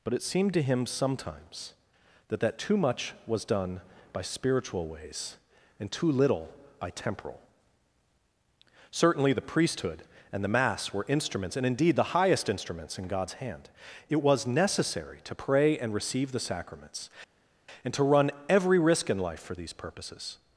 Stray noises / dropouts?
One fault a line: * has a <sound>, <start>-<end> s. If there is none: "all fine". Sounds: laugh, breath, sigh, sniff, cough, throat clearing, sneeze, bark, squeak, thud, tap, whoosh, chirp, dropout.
all fine